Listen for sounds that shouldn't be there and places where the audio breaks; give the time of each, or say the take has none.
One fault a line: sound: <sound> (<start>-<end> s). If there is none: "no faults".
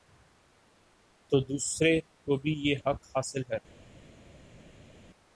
no faults